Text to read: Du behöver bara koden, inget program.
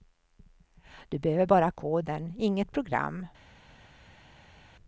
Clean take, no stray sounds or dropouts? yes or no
yes